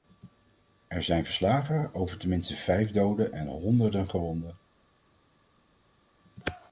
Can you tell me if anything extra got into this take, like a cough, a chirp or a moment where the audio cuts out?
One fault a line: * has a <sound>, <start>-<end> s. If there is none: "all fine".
all fine